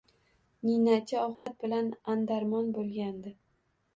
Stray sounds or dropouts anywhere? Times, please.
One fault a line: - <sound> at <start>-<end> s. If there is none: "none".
- dropout at 1.3-1.5 s